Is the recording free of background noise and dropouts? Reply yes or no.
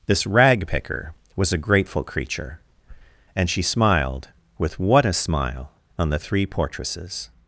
yes